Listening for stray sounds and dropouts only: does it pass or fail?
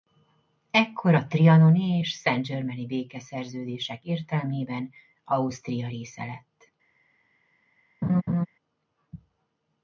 fail